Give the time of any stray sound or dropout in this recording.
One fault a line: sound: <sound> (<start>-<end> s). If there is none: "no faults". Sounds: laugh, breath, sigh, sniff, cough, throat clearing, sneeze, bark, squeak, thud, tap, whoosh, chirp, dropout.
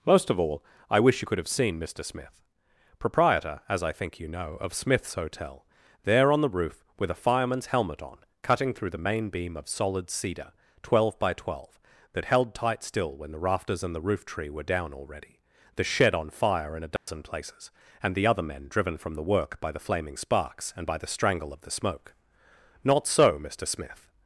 sound: dropout (17.0-17.1 s)